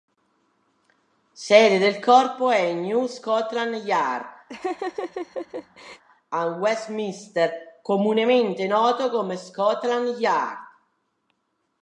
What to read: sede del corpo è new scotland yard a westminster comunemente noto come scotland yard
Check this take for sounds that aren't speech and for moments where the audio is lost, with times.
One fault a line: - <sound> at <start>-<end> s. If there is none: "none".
- laugh at 4.5-6.0 s